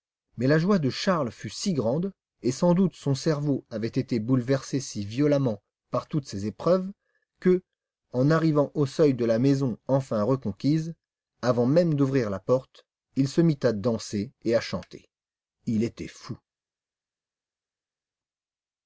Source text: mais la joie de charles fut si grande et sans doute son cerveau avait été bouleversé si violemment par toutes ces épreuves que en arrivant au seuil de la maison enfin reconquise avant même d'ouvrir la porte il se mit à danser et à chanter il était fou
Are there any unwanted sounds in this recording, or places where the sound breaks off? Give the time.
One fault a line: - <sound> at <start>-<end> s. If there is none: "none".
none